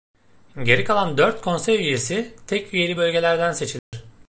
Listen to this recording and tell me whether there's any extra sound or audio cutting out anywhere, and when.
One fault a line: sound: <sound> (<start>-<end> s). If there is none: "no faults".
sound: dropout (3.8-3.9 s)